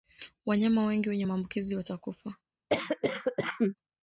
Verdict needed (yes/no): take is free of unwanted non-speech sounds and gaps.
no